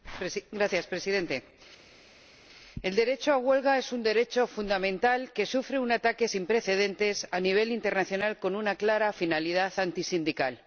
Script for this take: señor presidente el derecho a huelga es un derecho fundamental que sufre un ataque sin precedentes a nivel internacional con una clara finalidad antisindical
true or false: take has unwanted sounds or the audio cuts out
false